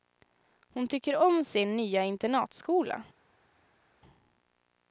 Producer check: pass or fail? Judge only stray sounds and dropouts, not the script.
pass